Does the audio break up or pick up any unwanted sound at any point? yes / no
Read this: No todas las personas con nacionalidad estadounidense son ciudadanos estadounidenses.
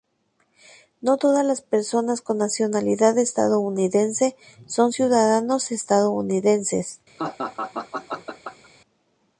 yes